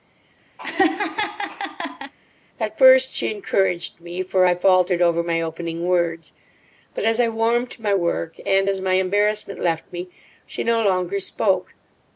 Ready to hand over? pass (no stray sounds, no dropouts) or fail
fail